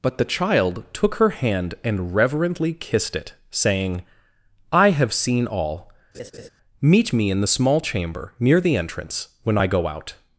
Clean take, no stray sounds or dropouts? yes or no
no